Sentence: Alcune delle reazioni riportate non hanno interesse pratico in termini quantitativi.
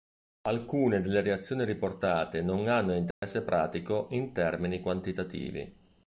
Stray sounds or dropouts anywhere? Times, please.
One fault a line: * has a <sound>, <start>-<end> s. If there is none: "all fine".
* has a dropout, 3.1-3.2 s